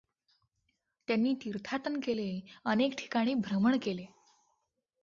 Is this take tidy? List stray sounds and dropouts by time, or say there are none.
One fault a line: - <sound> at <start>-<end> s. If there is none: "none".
none